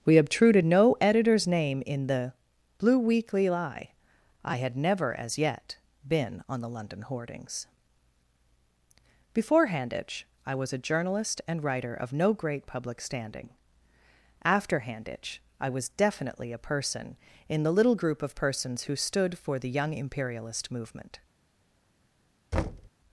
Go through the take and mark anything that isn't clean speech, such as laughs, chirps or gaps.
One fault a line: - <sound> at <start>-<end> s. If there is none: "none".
- thud at 22.5-22.9 s